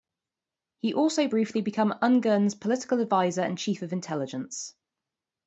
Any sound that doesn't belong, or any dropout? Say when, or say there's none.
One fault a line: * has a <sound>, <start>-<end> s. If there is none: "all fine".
all fine